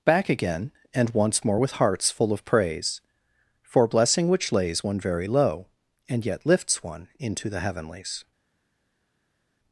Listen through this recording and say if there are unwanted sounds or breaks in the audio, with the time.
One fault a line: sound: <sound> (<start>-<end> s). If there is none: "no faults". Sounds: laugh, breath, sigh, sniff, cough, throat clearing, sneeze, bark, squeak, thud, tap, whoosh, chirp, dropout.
no faults